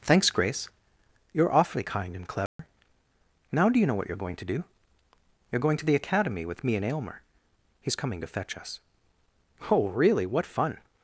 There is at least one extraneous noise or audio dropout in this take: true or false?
true